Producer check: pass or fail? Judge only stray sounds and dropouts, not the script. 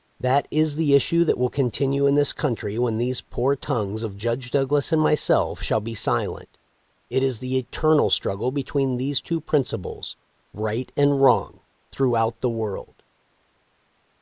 pass